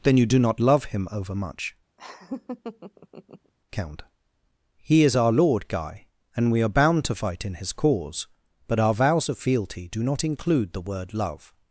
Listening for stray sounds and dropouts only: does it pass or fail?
fail